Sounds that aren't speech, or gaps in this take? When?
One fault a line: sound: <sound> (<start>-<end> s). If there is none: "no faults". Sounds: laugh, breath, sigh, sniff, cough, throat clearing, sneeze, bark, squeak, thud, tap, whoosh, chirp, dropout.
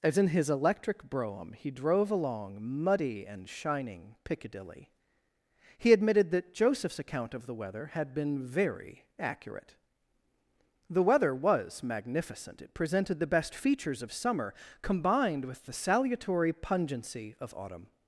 no faults